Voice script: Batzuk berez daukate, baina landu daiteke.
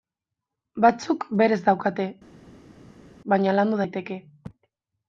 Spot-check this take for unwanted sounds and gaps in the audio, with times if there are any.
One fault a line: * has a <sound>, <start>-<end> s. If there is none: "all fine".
all fine